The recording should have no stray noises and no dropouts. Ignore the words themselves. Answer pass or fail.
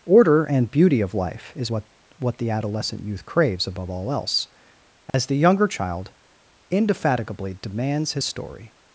fail